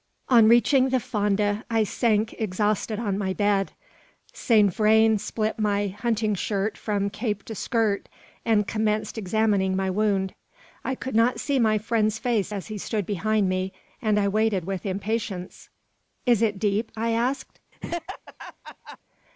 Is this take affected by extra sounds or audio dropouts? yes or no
yes